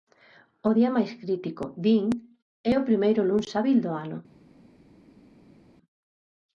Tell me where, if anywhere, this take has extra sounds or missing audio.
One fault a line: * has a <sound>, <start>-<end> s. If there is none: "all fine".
all fine